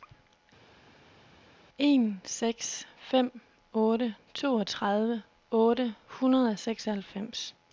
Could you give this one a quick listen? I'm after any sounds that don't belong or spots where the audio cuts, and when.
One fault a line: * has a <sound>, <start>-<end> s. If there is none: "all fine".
all fine